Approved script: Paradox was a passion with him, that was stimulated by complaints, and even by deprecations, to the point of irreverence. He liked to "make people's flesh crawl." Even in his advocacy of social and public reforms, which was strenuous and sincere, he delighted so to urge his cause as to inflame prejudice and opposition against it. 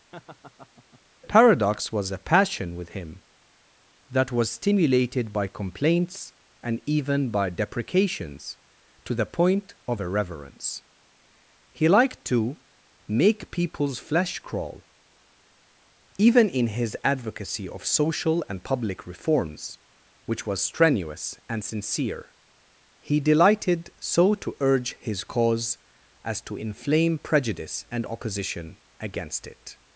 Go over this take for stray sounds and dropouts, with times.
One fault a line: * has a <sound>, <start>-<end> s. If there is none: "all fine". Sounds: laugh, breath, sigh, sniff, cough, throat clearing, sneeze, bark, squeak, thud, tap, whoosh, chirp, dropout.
* has a laugh, 0.1-1.0 s